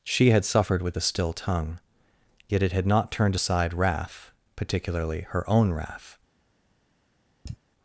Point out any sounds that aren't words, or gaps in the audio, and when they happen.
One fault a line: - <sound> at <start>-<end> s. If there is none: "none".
- sigh at 7.5-7.6 s